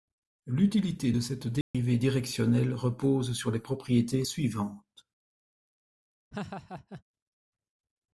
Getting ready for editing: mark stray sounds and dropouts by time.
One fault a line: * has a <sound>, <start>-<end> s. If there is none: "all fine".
* has a dropout, 1.6-1.7 s
* has a laugh, 6.3-7.0 s